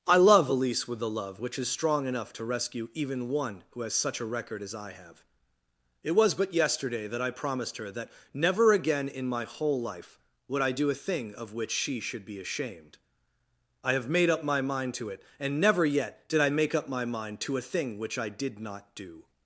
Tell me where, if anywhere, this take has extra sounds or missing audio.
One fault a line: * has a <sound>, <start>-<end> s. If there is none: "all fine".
all fine